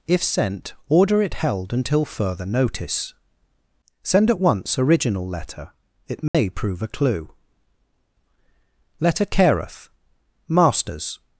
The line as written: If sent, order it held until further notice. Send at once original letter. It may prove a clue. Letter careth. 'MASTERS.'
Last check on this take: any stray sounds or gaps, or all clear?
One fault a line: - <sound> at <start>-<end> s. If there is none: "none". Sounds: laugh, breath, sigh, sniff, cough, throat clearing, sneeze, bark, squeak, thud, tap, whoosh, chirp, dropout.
- dropout at 6.3-6.3 s